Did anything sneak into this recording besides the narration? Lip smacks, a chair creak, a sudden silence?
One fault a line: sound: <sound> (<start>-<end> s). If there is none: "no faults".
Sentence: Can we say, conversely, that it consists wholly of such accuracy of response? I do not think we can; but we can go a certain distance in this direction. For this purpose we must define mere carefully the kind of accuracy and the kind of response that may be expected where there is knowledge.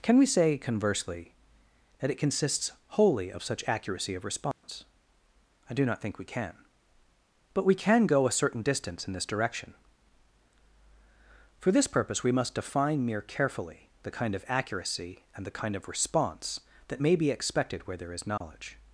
sound: dropout (4.5-4.6 s)
sound: dropout (18.4-18.4 s)